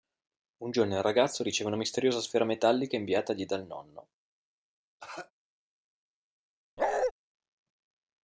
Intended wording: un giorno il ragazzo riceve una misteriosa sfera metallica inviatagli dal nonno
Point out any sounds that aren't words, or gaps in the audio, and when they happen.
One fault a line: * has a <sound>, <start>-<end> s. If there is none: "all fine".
* has a cough, 5.0-5.3 s
* has a bark, 6.8-7.1 s